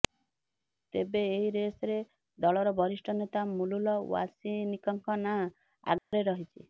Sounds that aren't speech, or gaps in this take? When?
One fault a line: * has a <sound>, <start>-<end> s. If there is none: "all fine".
* has a dropout, 6.0-6.1 s